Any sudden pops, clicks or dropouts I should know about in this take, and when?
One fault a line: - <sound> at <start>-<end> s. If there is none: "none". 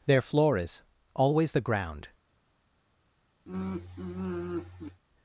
- sigh at 3.5-5.0 s